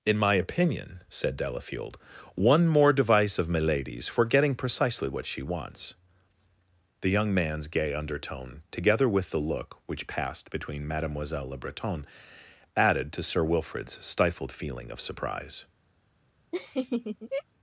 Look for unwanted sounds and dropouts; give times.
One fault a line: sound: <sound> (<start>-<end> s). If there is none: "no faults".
sound: laugh (16.5-17.4 s)